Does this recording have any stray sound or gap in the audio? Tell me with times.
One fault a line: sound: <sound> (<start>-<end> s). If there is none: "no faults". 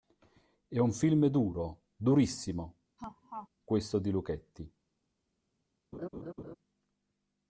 sound: laugh (3.0-3.5 s)
sound: laugh (5.9-6.6 s)